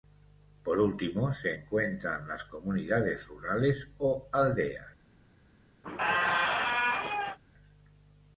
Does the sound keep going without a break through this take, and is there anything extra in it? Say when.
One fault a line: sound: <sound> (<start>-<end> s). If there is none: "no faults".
sound: squeak (5.8-7.4 s)